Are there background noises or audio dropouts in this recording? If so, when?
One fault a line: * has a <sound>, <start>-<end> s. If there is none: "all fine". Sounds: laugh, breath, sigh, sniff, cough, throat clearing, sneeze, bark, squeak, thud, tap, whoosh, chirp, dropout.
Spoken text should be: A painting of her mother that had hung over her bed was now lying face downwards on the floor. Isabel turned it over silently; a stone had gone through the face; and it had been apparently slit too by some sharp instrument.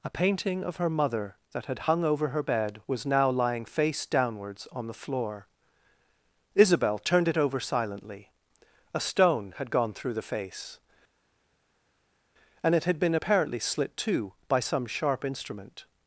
all fine